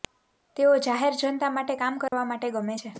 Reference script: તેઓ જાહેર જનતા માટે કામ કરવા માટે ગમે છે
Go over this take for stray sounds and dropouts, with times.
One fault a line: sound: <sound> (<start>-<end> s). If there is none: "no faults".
sound: dropout (2.1-2.1 s)